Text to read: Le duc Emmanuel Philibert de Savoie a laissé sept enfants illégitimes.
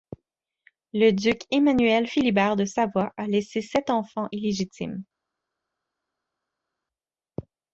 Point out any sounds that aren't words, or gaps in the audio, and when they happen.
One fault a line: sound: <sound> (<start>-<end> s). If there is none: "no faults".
no faults